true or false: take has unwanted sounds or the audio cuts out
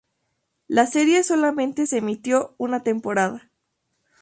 false